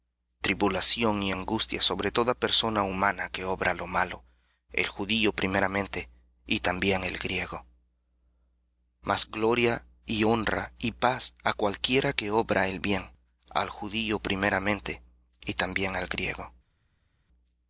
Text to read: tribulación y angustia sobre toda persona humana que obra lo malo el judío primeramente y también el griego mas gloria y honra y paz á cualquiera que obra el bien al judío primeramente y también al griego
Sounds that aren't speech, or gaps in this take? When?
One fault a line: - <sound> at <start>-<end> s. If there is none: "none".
none